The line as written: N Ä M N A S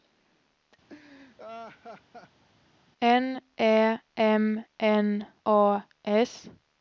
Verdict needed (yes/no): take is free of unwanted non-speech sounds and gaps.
no